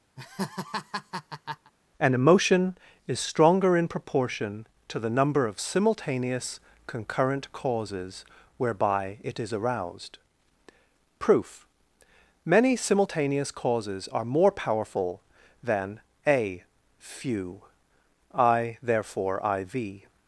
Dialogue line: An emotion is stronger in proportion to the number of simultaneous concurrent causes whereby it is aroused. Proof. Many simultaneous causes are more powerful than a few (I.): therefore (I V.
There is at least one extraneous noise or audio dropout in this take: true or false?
true